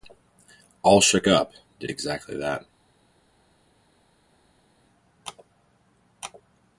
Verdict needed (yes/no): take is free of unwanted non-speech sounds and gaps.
yes